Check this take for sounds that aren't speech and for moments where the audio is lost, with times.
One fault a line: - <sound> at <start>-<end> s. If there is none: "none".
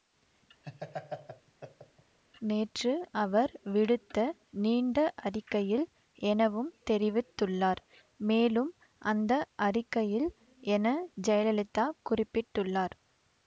- laugh at 0.6-2.2 s